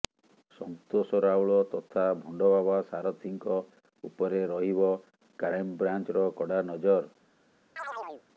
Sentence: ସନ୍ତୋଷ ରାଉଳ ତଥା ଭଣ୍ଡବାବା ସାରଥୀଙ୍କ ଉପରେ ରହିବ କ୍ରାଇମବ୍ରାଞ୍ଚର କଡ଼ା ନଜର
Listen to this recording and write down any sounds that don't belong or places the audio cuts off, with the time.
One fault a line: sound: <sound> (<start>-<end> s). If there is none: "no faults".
sound: chirp (7.8-8.2 s)